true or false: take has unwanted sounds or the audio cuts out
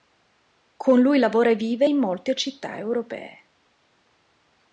false